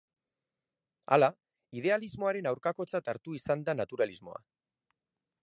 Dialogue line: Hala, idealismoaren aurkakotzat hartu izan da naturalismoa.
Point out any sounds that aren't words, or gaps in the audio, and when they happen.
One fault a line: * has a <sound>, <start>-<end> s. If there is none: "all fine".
all fine